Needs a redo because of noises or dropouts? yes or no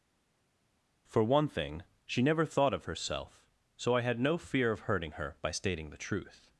no